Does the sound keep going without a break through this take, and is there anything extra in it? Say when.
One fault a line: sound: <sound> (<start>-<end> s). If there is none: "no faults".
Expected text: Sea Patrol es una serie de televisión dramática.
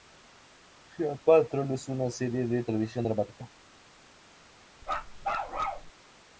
sound: bark (4.8-5.9 s)